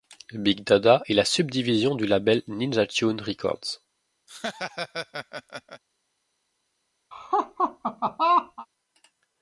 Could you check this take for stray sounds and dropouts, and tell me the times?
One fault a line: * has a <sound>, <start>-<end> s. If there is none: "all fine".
* has a laugh, 4.3-5.8 s
* has a laugh, 7.1-8.7 s